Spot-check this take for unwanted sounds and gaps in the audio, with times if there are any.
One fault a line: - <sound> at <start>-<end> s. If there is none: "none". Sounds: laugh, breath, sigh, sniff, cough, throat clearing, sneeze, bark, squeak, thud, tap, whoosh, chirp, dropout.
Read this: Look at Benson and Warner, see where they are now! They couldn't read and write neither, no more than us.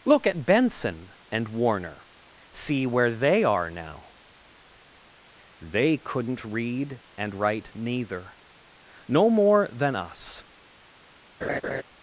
- laugh at 11.4-11.8 s